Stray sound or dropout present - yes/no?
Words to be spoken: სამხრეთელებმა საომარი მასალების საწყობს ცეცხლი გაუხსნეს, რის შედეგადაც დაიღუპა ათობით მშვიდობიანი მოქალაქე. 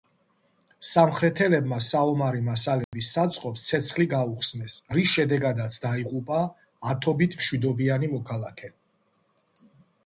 yes